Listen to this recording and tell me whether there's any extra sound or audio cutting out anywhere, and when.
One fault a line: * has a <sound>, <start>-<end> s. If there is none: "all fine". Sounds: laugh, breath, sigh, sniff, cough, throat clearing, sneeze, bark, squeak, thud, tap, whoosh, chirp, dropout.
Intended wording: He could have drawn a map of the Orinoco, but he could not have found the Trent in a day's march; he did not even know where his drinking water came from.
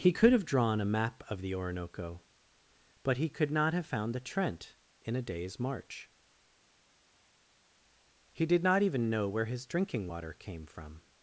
all fine